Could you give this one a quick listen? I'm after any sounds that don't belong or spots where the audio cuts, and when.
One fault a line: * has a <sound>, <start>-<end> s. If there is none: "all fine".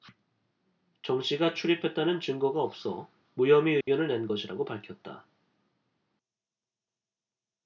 * has a dropout, 3.8-3.9 s